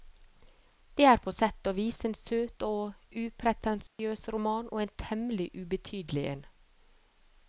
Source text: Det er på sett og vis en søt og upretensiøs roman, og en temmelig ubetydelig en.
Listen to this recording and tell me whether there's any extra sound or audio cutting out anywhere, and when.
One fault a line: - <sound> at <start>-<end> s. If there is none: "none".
- dropout at 3.9-4.0 s